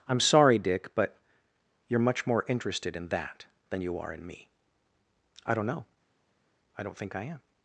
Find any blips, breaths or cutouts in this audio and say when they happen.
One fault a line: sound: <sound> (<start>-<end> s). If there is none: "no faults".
no faults